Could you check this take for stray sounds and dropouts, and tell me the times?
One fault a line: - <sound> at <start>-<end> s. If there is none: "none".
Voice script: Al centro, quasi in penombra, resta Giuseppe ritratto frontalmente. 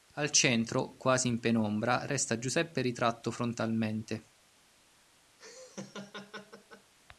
- laugh at 5.4-6.9 s